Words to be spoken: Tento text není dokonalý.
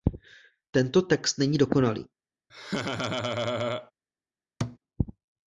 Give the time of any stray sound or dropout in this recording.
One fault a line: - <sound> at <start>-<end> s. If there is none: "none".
- laugh at 2.5-3.9 s
- thud at 4.6-4.8 s